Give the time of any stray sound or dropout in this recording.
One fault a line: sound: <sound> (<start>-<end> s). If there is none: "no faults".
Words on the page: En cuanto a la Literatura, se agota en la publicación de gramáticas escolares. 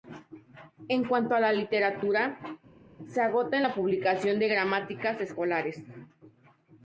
no faults